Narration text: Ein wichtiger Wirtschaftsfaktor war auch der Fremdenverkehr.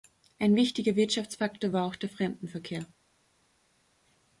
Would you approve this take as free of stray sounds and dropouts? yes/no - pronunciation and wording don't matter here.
yes